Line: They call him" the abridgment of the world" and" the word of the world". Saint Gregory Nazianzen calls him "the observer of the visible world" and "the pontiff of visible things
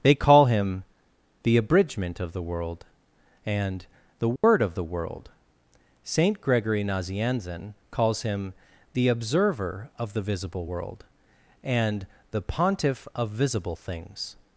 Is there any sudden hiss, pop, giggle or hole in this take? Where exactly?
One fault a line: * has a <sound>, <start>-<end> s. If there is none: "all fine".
* has a dropout, 4.4-4.4 s